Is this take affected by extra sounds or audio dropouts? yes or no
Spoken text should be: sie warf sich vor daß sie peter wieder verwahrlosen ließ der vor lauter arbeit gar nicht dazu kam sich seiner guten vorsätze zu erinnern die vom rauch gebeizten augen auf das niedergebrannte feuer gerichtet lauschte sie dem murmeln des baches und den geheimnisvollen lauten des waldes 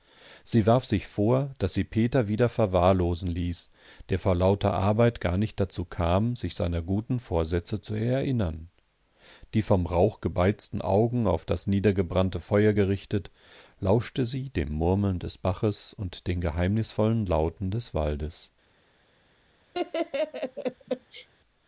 yes